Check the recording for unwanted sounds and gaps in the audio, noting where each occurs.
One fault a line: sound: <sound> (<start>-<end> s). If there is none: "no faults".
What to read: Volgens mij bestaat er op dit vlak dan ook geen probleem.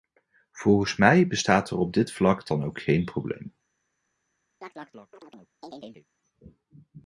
sound: chirp (4.6-6.1 s)